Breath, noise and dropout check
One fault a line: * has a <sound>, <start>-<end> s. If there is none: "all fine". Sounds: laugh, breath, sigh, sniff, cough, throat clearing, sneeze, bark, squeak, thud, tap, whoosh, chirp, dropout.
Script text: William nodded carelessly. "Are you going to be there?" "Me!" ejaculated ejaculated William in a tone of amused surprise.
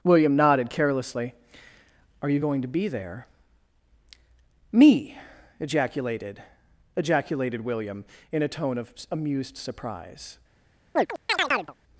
* has a chirp, 11.0-11.7 s